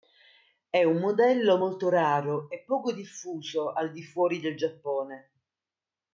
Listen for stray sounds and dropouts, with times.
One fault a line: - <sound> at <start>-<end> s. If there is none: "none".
none